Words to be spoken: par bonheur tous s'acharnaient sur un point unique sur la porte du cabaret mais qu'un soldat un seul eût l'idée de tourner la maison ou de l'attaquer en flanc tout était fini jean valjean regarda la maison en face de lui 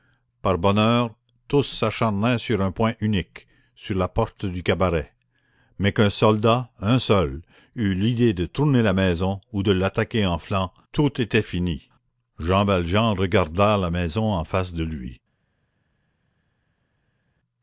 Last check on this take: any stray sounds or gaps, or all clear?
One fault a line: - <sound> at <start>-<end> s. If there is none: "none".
none